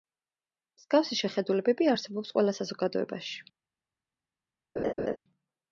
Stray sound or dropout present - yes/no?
yes